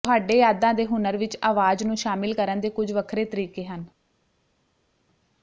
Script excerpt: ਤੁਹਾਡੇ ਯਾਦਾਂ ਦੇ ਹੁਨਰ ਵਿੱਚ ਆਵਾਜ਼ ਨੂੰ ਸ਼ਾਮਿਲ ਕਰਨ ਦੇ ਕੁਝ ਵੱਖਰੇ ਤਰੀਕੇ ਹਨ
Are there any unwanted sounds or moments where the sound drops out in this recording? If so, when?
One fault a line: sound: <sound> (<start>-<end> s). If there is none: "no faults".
no faults